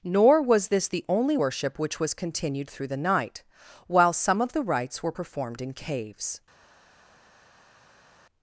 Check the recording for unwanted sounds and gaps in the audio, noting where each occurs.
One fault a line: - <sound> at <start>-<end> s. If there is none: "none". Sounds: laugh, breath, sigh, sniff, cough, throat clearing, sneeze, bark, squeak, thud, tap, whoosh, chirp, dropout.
none